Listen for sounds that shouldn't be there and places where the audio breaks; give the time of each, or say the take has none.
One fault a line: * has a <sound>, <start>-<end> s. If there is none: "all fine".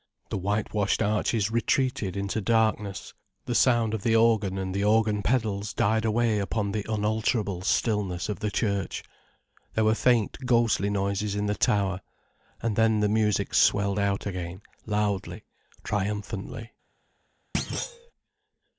* has a thud, 17.5-18.1 s